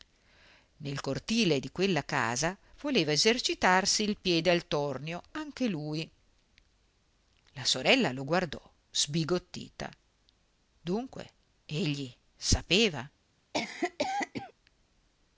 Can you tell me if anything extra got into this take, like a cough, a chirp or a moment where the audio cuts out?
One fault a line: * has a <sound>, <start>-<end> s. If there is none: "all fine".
* has a cough, 13.5-14.5 s